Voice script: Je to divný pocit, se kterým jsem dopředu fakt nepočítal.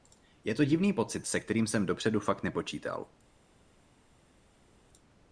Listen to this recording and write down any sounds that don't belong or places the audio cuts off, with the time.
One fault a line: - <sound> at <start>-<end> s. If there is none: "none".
none